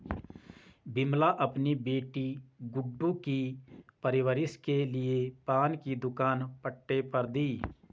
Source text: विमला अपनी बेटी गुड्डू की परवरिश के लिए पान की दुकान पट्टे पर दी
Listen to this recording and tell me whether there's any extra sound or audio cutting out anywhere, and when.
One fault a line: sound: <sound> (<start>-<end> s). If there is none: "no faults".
no faults